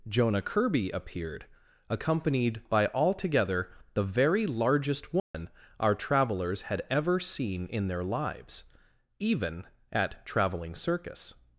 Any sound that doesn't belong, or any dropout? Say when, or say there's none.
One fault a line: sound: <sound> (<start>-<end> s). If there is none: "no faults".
sound: dropout (5.2-5.3 s)